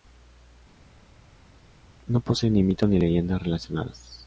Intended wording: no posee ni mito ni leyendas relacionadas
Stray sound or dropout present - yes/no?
no